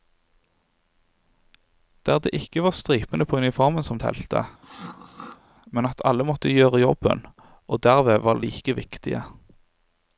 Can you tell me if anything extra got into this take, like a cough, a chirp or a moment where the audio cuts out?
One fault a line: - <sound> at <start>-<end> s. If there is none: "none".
- throat clearing at 4.6-5.4 s